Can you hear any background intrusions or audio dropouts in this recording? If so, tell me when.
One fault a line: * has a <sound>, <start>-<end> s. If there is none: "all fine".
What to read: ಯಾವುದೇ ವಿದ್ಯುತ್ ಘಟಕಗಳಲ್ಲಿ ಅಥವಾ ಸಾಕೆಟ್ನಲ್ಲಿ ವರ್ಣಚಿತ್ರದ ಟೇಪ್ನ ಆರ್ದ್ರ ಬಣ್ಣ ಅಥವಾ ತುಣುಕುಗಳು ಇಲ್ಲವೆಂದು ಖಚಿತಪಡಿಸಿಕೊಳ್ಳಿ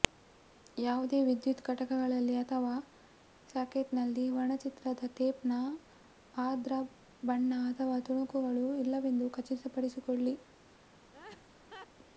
* has a laugh, 11.1-11.9 s